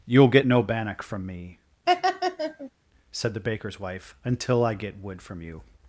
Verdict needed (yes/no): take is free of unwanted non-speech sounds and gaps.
no